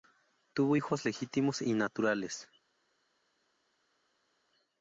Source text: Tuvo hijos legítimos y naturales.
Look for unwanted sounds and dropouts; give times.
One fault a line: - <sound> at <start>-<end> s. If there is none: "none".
none